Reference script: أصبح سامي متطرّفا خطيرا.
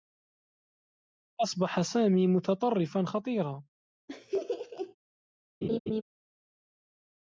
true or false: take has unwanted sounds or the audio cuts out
true